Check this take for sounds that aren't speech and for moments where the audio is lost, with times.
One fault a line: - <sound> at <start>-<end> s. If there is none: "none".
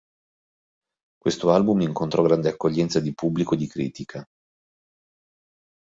none